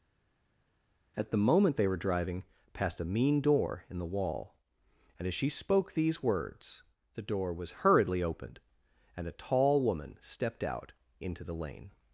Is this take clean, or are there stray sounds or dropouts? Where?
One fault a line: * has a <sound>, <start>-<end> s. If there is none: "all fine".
all fine